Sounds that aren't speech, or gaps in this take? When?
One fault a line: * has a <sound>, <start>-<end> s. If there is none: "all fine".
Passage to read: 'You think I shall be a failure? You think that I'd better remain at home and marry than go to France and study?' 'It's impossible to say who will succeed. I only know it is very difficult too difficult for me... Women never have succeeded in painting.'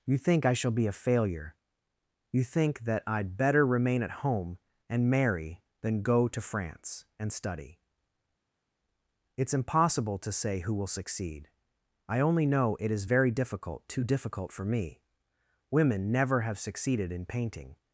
all fine